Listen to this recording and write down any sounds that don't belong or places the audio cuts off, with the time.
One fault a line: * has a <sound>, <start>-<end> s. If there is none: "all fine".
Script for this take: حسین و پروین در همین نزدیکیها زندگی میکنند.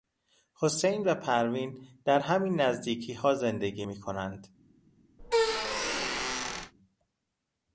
* has a squeak, 5.2-6.7 s